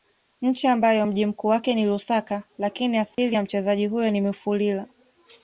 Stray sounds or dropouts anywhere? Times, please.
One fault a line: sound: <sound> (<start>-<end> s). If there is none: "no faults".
sound: dropout (3.1-3.2 s)